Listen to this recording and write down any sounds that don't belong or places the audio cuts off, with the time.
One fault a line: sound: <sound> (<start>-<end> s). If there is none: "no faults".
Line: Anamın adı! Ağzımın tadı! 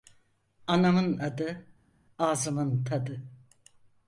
no faults